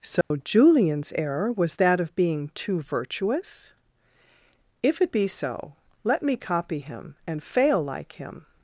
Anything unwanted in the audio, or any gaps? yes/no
yes